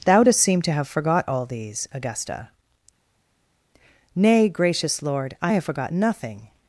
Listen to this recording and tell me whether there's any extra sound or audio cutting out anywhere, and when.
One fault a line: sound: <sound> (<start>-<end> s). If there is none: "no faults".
no faults